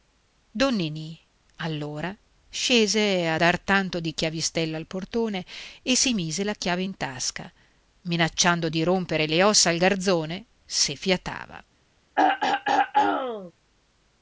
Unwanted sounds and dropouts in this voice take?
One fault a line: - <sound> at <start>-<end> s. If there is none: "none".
- throat clearing at 12.2-13.5 s